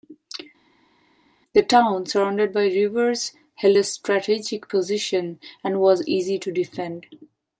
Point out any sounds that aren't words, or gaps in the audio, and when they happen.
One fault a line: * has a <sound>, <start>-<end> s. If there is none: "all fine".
all fine